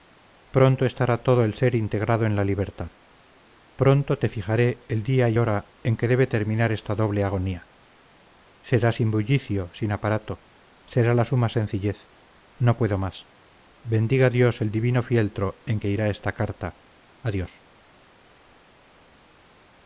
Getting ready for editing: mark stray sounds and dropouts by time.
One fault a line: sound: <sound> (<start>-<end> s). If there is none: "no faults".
no faults